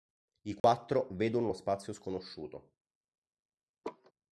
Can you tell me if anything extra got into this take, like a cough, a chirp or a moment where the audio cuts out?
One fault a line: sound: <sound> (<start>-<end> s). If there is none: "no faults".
sound: dropout (0.6-0.6 s)
sound: laugh (3.8-4.1 s)